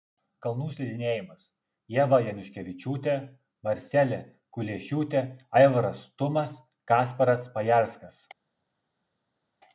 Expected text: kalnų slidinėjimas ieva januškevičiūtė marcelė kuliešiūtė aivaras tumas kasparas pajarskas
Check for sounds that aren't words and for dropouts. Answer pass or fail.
pass